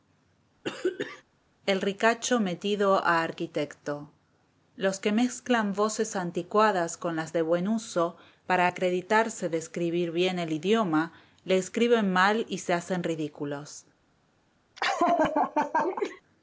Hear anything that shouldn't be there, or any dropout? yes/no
yes